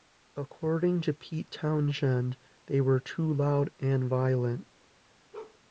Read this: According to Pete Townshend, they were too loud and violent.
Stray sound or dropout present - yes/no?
yes